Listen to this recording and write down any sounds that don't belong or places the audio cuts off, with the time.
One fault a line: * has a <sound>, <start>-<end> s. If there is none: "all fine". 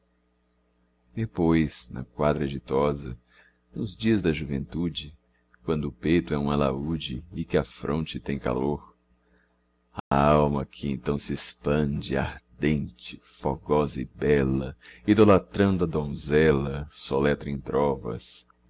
* has a dropout, 10.0-10.1 s